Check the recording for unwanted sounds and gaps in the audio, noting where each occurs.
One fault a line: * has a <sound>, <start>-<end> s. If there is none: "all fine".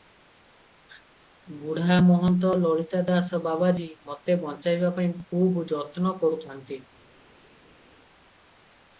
all fine